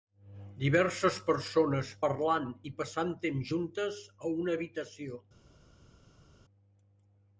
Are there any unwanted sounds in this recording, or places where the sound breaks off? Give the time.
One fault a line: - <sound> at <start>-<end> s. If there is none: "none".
none